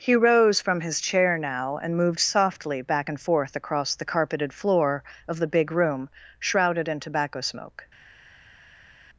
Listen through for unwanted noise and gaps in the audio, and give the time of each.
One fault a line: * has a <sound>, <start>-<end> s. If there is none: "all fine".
all fine